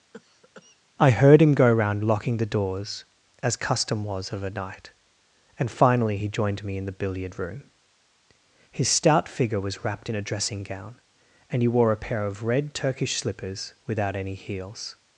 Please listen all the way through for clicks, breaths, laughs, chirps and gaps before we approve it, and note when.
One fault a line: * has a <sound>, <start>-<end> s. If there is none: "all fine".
* has a cough, 0.1-0.8 s